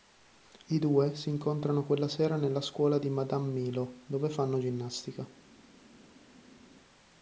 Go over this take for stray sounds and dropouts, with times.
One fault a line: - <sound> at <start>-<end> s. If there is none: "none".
none